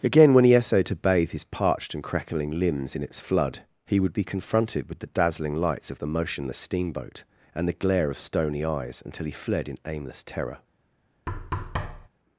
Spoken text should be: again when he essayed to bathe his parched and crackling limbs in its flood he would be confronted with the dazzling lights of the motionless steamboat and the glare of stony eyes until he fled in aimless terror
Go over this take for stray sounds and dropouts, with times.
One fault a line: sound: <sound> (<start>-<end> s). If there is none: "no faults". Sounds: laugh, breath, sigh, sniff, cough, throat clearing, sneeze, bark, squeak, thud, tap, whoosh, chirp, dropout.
sound: thud (11.3-12.1 s)